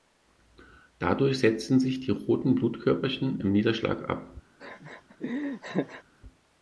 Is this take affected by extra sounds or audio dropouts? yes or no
yes